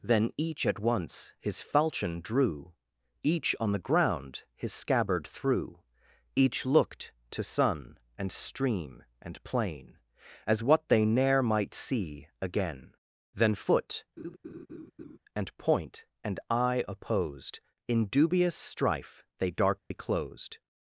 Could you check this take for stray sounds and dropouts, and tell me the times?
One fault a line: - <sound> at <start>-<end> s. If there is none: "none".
- laugh at 14.2-15.2 s
- dropout at 19.8-19.9 s